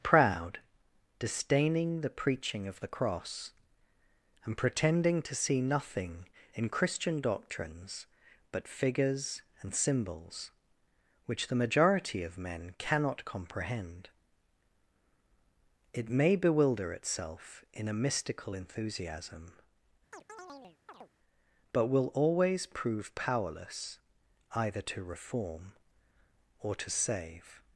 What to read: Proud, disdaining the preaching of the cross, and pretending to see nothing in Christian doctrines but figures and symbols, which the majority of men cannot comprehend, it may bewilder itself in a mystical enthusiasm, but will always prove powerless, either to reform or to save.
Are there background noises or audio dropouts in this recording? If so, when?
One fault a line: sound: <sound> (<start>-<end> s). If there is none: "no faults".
sound: chirp (20.1-21.1 s)